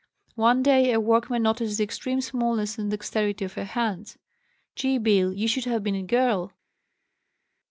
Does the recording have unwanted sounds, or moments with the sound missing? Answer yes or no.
no